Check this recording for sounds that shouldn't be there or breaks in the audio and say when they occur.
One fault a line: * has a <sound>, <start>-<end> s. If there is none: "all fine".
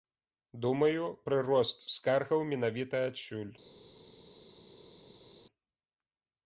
all fine